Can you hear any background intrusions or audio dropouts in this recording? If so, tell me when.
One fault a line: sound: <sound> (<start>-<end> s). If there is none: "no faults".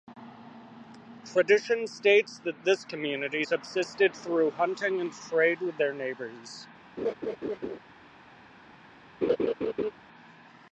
sound: laugh (7.0-7.8 s)
sound: laugh (9.2-9.9 s)